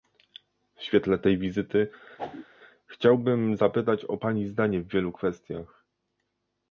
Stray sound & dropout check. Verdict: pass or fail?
fail